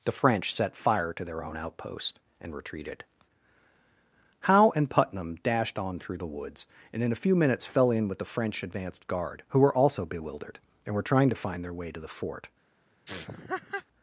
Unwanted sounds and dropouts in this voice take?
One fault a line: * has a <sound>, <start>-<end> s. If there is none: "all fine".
* has a laugh, 13.1-13.9 s